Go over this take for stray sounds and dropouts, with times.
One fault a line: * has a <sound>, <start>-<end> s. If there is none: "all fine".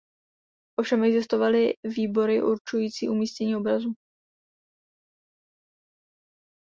all fine